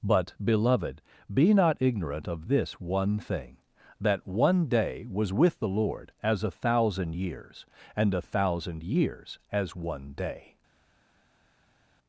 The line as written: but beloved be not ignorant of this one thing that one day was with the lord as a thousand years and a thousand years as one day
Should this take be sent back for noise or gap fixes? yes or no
no